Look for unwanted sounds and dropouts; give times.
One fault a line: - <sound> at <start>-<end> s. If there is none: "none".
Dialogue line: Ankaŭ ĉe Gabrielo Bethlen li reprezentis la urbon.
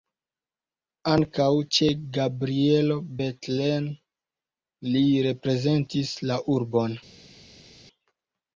none